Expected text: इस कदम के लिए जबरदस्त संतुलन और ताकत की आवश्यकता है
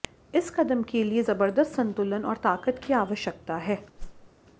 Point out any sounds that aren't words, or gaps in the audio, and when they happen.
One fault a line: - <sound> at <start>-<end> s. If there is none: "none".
- whoosh at 4.0-4.3 s